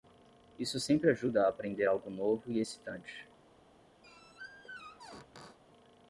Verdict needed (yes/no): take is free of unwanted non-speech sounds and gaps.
no